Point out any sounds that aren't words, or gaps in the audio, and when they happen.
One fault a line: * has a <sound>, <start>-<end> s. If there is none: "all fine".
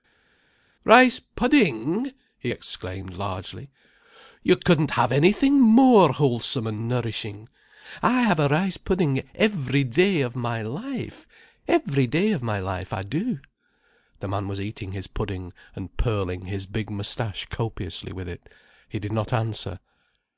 all fine